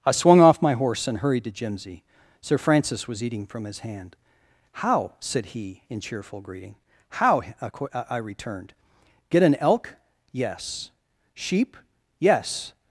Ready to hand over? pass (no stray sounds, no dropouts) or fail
pass